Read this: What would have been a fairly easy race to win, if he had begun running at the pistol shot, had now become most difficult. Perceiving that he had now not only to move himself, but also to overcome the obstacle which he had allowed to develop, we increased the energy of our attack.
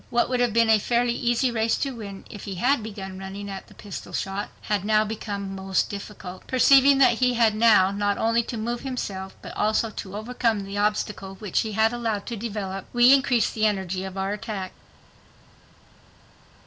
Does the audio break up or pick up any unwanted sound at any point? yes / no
no